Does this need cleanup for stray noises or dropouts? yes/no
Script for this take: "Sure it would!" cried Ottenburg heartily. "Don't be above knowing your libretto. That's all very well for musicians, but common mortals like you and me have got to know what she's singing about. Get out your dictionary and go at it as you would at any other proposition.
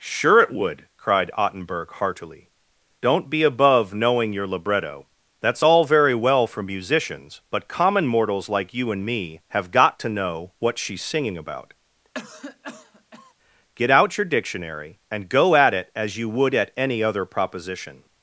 yes